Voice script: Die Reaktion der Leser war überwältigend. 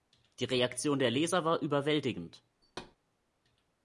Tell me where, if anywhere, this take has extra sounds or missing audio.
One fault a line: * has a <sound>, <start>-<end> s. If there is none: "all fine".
* has a thud, 2.6-3.0 s